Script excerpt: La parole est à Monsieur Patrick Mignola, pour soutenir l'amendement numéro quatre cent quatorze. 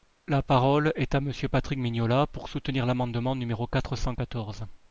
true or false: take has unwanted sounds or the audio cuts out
false